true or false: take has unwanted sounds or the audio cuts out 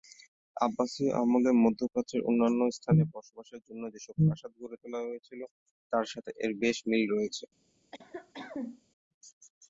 true